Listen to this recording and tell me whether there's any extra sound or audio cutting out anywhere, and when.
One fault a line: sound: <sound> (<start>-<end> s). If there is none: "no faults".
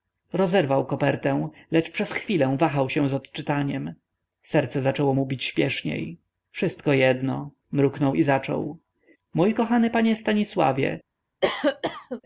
sound: cough (11.4-12.2 s)